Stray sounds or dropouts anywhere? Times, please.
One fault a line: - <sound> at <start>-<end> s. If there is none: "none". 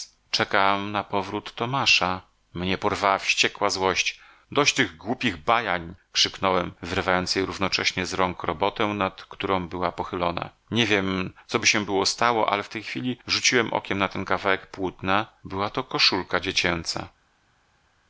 none